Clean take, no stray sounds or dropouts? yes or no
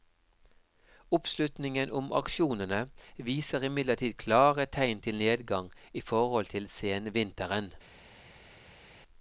yes